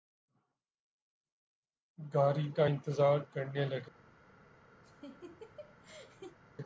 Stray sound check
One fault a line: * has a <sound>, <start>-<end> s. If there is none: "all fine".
* has a laugh, 4.8-6.4 s